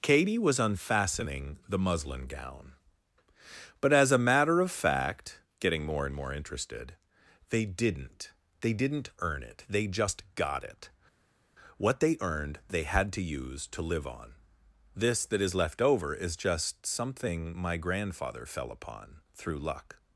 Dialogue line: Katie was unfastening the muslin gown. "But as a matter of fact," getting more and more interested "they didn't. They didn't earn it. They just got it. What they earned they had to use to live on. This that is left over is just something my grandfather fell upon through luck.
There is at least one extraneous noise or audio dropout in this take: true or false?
false